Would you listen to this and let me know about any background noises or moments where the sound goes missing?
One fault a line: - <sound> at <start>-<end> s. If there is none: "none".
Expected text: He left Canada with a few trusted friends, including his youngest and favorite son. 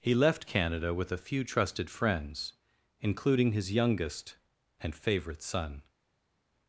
none